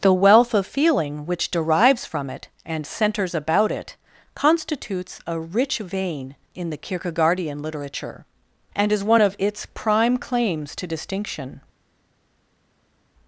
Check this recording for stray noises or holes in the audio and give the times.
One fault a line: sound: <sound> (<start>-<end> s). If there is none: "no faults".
no faults